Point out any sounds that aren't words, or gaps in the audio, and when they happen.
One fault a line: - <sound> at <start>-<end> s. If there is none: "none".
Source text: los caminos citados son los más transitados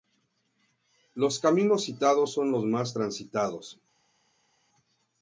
none